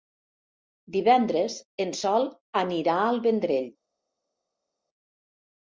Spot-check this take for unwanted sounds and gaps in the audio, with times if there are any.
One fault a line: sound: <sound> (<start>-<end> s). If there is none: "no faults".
no faults